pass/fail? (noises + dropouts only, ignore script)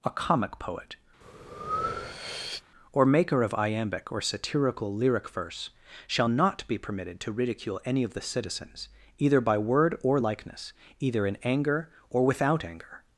fail